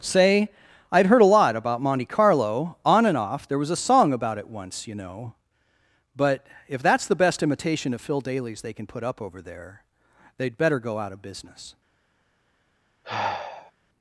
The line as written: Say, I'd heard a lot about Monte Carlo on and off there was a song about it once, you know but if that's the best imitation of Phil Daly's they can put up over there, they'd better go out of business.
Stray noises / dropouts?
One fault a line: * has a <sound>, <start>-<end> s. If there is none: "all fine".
* has a sigh, 13.0-13.7 s